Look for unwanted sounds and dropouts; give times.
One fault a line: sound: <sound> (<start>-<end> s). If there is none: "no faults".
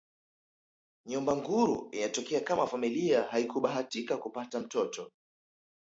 no faults